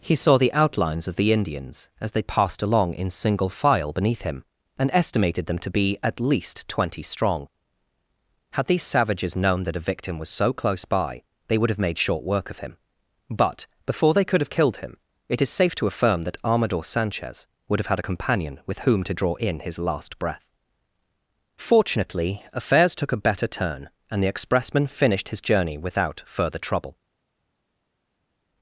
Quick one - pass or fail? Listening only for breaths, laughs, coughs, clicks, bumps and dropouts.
pass